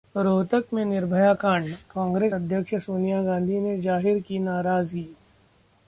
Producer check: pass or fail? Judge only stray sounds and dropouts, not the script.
pass